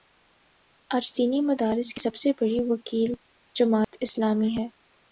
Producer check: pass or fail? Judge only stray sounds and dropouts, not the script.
fail